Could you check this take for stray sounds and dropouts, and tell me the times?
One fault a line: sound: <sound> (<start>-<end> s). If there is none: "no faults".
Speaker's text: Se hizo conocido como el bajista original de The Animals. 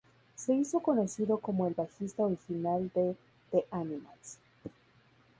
no faults